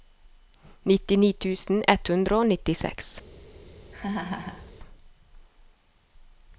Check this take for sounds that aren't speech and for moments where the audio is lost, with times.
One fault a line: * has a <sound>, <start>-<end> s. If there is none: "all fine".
* has a laugh, 3.9-4.7 s